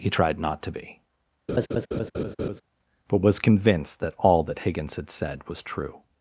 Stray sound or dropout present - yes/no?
yes